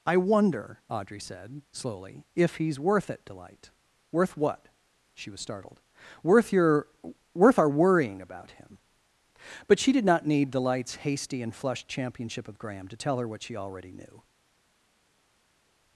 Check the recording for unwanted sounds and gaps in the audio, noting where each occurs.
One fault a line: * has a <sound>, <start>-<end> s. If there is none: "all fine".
all fine